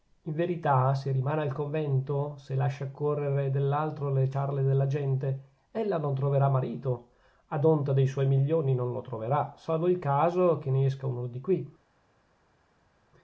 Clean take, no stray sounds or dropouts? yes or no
yes